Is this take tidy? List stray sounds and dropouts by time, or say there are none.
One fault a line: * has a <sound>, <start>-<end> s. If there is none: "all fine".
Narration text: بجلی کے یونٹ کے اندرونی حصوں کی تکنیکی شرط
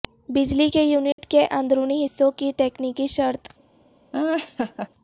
* has a dropout, 1.1-1.2 s
* has a laugh, 4.1-4.9 s